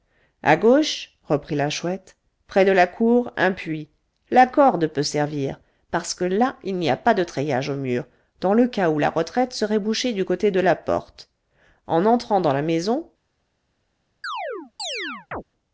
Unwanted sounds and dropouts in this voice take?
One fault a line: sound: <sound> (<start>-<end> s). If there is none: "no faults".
sound: chirp (14.2-15.4 s)